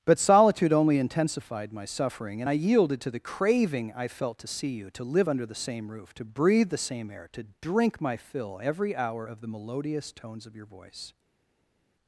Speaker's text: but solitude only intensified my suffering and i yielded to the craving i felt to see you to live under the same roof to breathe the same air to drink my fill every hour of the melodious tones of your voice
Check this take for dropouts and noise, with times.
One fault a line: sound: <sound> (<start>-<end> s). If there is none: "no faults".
no faults